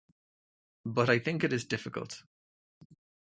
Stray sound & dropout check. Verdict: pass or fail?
pass